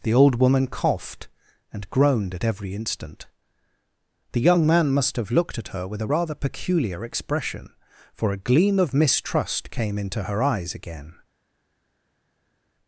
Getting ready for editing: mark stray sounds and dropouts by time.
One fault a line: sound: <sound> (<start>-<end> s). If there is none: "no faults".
no faults